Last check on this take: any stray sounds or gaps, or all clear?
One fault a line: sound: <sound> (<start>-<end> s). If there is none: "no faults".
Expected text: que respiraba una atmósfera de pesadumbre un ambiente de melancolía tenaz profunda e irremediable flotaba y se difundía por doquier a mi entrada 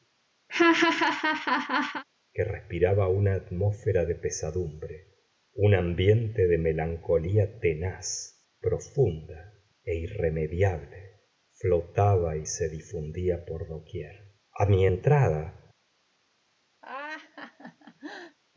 sound: laugh (0.5-2.0 s)
sound: laugh (16.8-18.4 s)